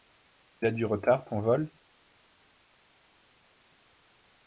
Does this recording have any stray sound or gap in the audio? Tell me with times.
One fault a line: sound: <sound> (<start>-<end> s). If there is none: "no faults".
no faults